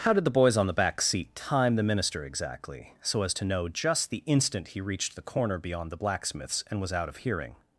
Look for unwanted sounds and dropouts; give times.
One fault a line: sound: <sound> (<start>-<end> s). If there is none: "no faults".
no faults